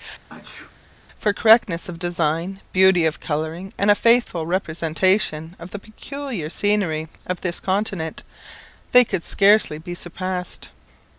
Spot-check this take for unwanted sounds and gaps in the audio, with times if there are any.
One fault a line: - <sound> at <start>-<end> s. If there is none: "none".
- sneeze at 0.3-0.8 s